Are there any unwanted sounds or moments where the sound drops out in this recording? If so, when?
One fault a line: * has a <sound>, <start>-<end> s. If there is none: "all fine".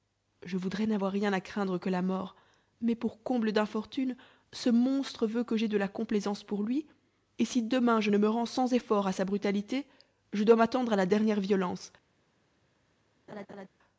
* has a laugh, 13.3-13.7 s